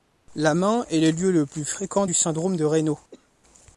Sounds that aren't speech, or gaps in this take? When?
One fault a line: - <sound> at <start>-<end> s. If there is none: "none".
- cough at 3.1-3.3 s